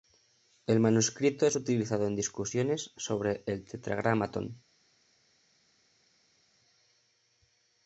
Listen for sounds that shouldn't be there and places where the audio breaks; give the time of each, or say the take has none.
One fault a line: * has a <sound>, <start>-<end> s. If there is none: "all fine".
all fine